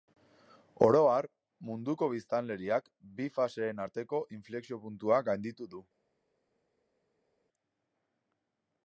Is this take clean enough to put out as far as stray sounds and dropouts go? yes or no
yes